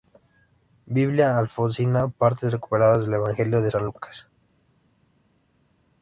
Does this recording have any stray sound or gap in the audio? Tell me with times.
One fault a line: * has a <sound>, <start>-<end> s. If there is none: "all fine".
all fine